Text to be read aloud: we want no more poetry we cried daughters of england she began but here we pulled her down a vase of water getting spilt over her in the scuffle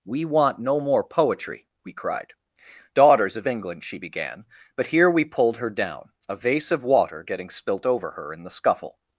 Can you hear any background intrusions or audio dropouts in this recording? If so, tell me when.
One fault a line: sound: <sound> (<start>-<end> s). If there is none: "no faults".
no faults